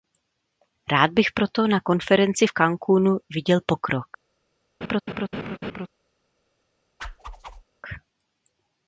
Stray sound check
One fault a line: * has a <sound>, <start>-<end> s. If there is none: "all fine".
* has a laugh, 4.8-5.9 s
* has a whoosh, 7.0-7.6 s